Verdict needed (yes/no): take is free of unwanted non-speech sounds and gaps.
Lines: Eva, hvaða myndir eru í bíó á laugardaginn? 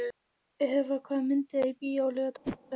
no